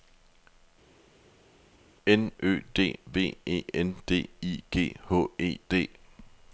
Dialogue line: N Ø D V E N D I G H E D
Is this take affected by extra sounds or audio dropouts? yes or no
no